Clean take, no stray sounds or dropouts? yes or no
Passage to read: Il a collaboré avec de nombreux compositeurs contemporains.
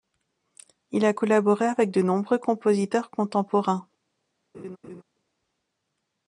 no